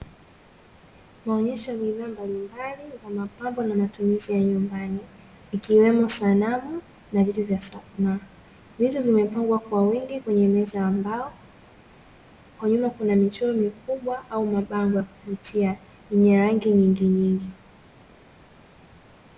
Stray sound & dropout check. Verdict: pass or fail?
pass